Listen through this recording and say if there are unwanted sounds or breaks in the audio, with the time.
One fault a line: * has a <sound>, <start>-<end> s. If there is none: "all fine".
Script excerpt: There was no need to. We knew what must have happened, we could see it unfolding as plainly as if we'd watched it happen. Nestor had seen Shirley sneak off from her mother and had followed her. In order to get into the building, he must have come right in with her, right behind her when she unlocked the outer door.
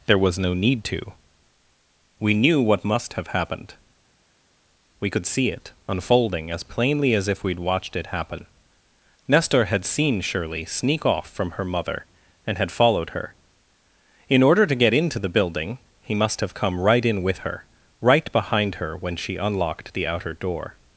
all fine